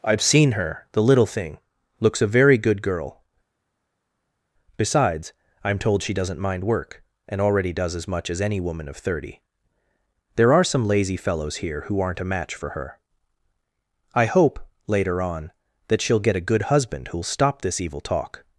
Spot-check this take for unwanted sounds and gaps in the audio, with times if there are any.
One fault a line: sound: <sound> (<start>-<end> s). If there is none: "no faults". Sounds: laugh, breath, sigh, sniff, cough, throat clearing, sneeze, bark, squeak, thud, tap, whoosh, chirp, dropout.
no faults